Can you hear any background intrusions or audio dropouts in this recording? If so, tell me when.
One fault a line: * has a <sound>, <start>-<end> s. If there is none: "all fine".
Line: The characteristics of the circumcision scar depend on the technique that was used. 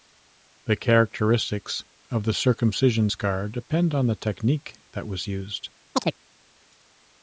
* has a chirp, 5.9-6.2 s